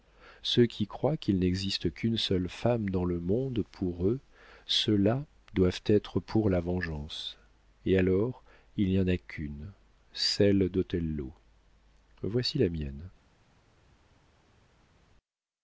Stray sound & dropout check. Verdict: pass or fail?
pass